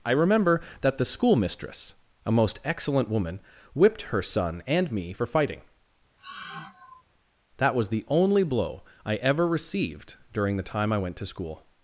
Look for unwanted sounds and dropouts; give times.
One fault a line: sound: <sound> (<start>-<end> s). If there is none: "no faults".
sound: sigh (6.2-7.0 s)